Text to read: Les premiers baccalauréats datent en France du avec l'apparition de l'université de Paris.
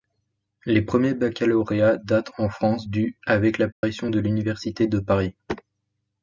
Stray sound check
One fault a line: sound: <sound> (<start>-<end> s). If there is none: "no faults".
sound: dropout (3.7-3.8 s)